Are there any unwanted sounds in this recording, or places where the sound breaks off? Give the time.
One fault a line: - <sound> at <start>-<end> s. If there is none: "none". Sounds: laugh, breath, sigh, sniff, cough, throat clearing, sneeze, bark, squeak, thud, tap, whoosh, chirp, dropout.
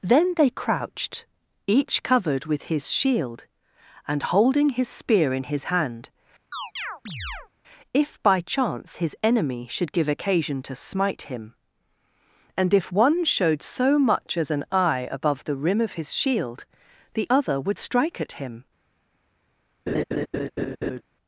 - chirp at 6.5-7.5 s
- laugh at 19.9-21.0 s